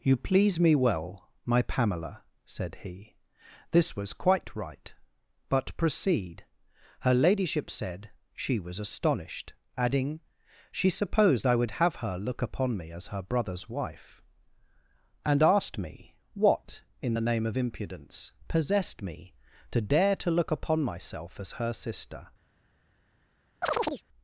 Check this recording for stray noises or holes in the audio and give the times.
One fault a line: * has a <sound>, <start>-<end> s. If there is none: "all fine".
* has a chirp, 23.6-24.0 s